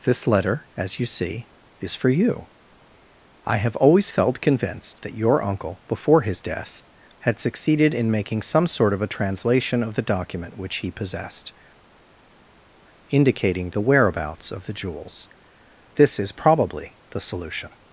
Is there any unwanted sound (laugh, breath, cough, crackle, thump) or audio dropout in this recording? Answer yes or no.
no